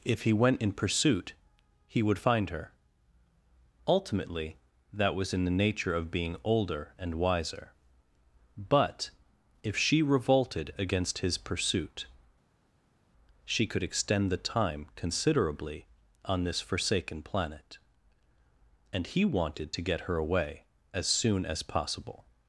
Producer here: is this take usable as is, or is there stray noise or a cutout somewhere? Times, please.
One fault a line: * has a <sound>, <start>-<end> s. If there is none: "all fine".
all fine